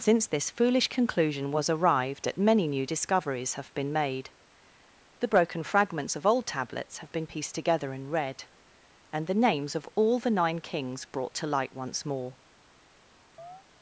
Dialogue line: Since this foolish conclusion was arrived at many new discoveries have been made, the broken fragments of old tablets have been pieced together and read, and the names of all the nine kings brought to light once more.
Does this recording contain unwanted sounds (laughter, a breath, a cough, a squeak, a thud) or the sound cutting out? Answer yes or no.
yes